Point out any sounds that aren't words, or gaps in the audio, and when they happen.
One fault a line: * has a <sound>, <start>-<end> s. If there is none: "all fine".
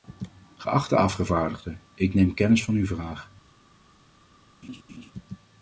* has a laugh, 4.6-5.1 s